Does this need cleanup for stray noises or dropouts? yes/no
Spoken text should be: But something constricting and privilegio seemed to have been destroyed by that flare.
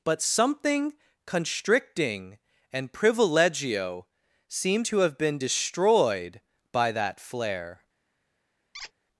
yes